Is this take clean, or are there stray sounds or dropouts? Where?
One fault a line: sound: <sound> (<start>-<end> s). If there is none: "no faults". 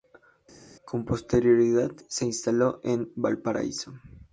no faults